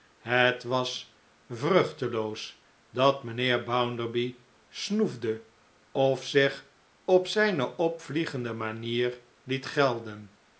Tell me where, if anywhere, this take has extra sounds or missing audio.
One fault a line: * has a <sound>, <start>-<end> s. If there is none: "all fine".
all fine